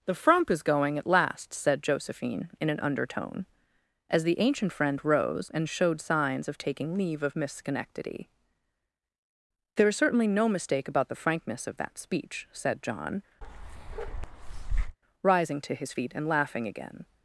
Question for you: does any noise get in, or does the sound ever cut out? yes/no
yes